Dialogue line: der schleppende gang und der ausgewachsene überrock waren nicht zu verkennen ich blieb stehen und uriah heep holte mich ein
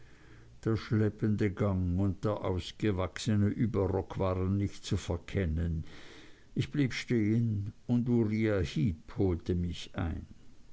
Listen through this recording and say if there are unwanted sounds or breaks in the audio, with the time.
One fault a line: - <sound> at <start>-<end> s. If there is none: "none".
none